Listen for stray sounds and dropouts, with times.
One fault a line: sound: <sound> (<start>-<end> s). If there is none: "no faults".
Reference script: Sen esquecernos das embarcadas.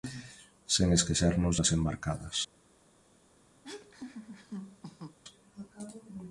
sound: laugh (3.6-5.2 s)